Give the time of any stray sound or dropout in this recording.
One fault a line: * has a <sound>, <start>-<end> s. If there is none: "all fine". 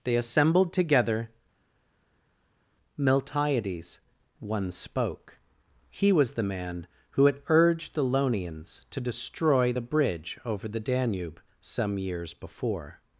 all fine